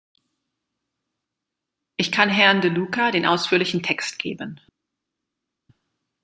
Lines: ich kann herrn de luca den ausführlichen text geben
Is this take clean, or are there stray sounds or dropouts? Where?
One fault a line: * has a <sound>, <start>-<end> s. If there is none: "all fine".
all fine